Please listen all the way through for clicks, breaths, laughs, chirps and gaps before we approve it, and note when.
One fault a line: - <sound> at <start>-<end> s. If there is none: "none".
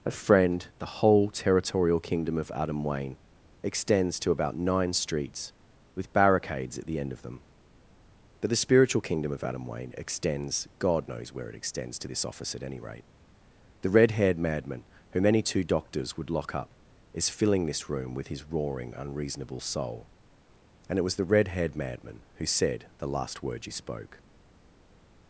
none